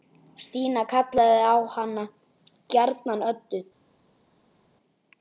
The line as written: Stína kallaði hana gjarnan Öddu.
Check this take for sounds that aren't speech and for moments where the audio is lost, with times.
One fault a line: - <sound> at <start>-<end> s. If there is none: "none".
none